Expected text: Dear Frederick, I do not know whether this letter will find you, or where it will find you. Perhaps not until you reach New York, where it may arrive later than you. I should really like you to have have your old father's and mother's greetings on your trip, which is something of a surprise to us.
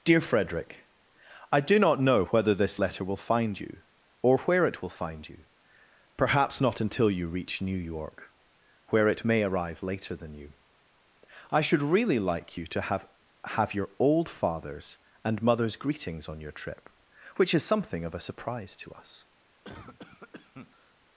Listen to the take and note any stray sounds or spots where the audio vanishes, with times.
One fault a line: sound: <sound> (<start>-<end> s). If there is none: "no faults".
sound: cough (19.6-20.9 s)